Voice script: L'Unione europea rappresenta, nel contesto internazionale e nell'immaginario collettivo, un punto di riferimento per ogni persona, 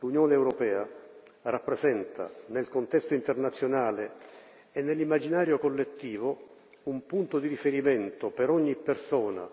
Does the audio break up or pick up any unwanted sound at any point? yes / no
no